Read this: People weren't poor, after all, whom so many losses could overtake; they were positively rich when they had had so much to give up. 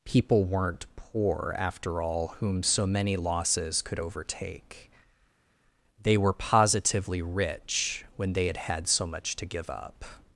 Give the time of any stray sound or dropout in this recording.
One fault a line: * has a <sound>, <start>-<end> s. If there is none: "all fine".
all fine